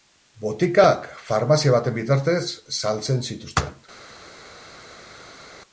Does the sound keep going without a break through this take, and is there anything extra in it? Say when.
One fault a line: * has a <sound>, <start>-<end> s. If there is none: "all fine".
all fine